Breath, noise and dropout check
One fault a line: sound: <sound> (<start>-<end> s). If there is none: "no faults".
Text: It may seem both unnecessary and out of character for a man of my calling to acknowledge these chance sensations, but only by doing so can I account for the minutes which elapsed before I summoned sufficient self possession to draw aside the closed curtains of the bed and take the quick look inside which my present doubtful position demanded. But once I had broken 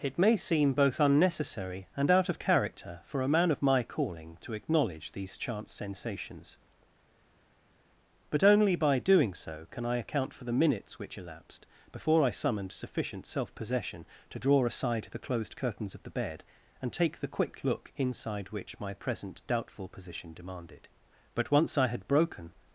no faults